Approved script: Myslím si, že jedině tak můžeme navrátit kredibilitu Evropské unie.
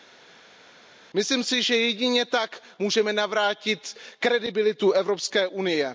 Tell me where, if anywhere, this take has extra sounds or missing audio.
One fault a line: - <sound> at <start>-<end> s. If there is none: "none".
none